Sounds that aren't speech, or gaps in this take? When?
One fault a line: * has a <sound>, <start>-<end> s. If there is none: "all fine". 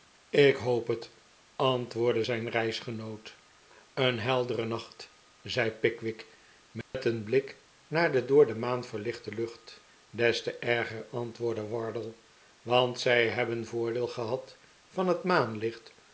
* has a dropout, 6.8-6.9 s